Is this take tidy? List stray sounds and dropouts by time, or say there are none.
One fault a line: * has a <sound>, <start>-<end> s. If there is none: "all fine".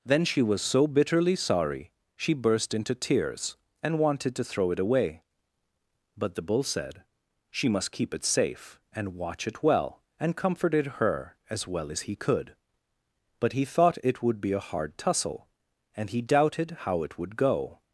all fine